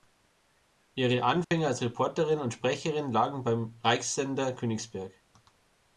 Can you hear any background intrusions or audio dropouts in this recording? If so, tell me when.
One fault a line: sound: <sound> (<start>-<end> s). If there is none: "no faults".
sound: dropout (1.4-1.5 s)